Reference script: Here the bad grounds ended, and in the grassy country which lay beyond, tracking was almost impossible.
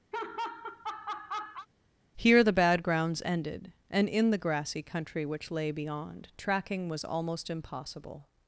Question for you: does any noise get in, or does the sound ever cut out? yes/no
yes